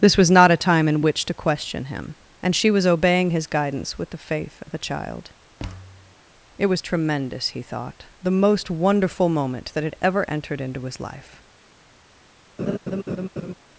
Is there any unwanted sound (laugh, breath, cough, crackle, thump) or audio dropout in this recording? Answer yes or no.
yes